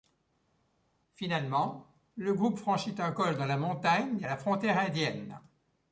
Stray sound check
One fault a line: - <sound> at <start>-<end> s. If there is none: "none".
none